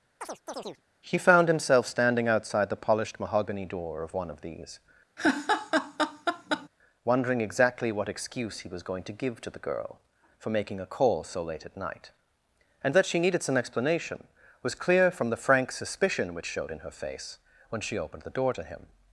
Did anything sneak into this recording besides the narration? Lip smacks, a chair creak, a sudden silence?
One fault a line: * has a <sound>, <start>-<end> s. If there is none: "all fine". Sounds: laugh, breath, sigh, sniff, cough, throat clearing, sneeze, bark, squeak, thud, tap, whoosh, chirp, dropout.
* has a chirp, 0.2-0.8 s
* has a laugh, 5.2-6.7 s